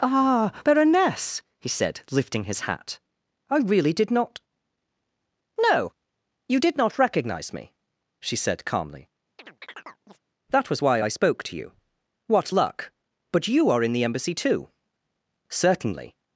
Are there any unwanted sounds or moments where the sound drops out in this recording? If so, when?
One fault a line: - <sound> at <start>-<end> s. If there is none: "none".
- chirp at 9.4-10.2 s